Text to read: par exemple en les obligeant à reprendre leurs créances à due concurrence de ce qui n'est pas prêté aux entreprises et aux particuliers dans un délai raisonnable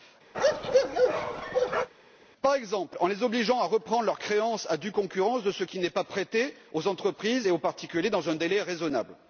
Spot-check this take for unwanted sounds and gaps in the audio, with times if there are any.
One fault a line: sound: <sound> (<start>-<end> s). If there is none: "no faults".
sound: bark (0.3-1.9 s)